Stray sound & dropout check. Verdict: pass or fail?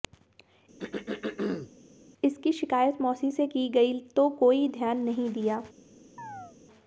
fail